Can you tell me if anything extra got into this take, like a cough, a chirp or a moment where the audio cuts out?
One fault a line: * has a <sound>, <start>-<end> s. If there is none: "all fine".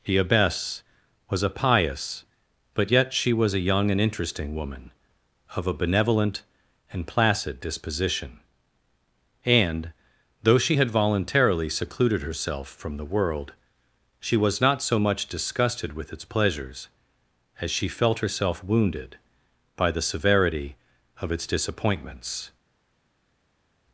all fine